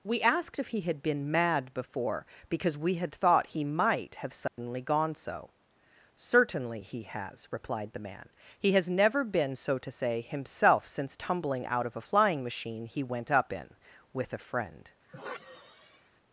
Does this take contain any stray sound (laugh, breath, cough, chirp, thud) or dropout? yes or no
yes